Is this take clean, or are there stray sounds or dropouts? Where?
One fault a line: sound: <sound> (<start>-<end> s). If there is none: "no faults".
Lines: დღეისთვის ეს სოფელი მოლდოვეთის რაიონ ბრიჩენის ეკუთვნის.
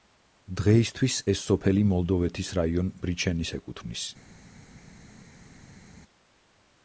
no faults